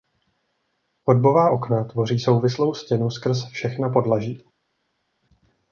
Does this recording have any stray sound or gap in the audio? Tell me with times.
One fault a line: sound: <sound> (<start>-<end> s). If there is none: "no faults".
no faults